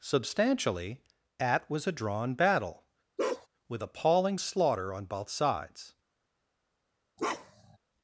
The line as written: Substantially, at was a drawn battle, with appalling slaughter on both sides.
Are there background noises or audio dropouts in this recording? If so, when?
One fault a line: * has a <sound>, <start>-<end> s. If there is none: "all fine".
* has a bark, 3.2-3.5 s
* has a bark, 7.2-7.8 s